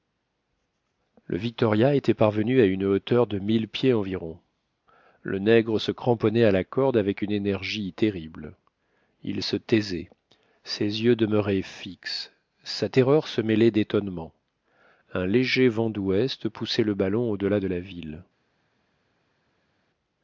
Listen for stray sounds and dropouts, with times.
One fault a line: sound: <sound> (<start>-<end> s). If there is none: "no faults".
no faults